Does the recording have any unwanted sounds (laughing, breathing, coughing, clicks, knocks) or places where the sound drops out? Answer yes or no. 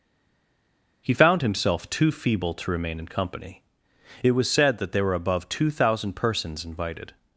no